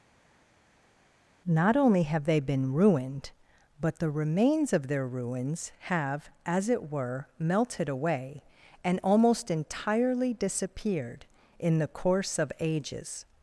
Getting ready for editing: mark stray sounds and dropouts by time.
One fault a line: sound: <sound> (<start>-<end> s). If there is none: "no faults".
no faults